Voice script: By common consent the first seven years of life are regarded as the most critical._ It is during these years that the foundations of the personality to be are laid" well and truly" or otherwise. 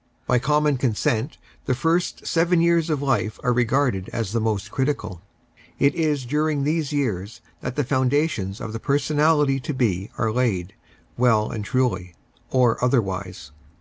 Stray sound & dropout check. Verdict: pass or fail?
pass